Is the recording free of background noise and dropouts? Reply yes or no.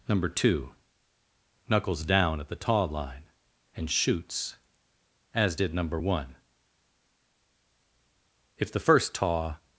yes